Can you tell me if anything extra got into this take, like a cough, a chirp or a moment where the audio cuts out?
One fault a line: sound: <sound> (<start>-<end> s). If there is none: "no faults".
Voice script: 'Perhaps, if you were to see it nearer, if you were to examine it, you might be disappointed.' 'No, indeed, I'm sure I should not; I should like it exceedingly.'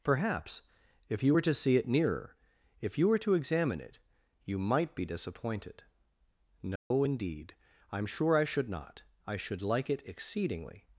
sound: dropout (6.8-6.9 s)